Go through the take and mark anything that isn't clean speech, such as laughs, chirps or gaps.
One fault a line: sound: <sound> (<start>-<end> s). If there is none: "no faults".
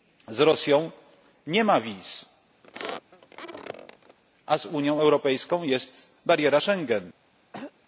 sound: squeak (2.6-4.2 s)
sound: throat clearing (7.5-7.7 s)